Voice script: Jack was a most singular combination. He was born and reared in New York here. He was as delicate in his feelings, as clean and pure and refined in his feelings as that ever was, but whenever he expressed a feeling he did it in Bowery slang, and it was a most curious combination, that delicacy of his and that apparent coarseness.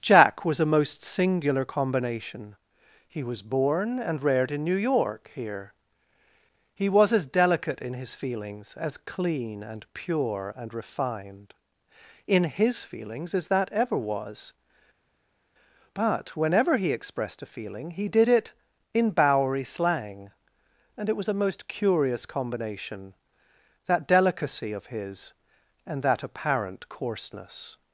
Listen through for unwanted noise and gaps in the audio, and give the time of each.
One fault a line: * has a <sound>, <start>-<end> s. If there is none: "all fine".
all fine